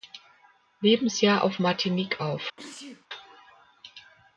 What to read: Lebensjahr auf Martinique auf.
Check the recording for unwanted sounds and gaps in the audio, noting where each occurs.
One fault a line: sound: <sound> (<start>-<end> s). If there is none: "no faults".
sound: sneeze (2.6-3.1 s)